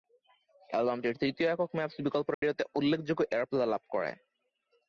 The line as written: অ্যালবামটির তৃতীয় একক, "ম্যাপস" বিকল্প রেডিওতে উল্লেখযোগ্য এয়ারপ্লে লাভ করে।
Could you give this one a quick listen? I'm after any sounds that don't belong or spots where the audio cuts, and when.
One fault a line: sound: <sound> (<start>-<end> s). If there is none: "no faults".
sound: dropout (2.3-2.4 s)